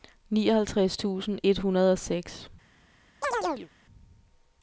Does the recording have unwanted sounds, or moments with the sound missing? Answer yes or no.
yes